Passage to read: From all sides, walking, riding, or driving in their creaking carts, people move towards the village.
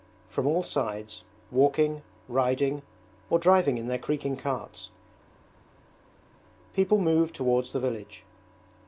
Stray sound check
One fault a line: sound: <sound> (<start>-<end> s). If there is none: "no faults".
no faults